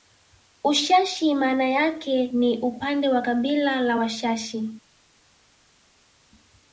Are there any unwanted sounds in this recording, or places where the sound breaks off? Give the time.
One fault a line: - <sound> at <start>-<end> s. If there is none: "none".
none